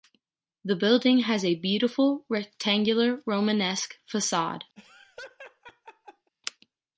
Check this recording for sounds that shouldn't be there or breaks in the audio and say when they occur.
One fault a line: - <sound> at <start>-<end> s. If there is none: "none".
- laugh at 4.8-6.3 s